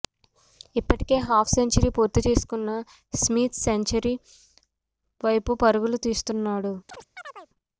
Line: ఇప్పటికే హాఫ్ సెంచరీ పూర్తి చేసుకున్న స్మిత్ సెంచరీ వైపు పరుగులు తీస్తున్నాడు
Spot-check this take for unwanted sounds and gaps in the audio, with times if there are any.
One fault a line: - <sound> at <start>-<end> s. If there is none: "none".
- chirp at 6.9-7.5 s